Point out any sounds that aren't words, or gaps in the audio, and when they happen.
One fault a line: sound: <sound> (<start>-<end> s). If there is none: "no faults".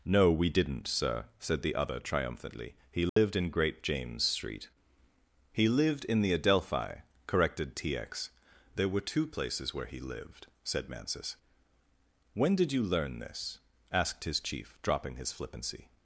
sound: dropout (3.1-3.2 s)